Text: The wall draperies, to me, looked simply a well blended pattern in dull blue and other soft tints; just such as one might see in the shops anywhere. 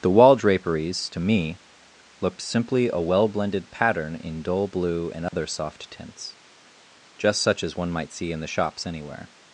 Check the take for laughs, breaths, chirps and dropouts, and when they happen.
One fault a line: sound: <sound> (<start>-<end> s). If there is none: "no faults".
sound: dropout (5.3-5.3 s)